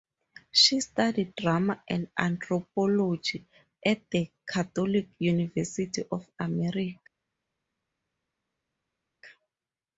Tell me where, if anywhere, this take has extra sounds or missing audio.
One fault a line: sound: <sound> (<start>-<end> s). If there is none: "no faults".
no faults